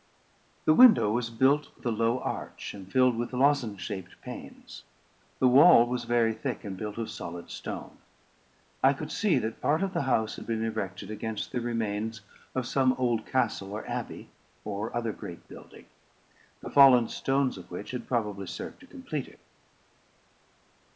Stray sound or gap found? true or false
false